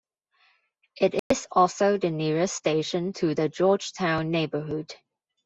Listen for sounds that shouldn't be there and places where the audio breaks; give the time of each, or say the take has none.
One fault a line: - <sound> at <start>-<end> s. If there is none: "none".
- dropout at 1.2-1.3 s